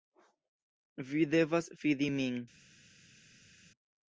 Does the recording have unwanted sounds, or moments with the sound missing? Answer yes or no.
no